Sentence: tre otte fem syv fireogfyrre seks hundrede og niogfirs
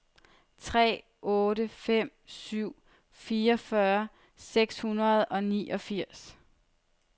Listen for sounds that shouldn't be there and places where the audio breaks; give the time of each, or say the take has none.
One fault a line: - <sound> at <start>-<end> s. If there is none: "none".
none